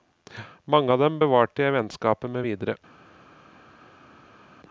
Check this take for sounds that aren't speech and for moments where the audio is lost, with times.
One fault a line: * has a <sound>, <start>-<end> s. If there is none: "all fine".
all fine